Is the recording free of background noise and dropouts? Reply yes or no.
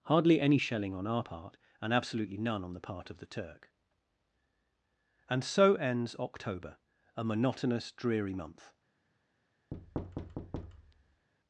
no